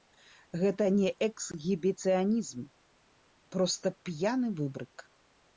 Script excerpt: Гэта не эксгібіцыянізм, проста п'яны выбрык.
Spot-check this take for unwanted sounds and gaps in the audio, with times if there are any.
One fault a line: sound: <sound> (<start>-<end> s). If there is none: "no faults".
no faults